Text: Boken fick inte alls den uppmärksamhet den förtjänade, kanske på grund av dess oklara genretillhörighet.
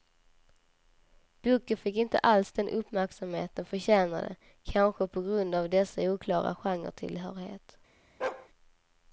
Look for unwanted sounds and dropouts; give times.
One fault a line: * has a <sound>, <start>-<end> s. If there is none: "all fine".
* has a bark, 8.2-8.5 s